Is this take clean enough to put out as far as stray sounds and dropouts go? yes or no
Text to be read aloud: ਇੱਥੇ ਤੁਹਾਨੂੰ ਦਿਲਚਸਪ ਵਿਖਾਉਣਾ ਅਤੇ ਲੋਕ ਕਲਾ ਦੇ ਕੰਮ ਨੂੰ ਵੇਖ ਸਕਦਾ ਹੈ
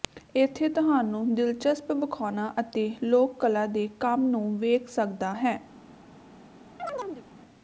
no